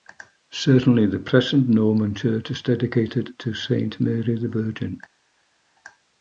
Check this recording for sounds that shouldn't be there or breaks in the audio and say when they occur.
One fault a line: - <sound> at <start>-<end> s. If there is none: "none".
none